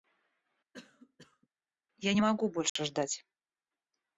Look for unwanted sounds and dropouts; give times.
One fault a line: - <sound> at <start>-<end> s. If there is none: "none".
- cough at 0.7-1.5 s
- dropout at 2.7-2.8 s